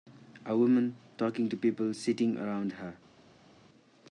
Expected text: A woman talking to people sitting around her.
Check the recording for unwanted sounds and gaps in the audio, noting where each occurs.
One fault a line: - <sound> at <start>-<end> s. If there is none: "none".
none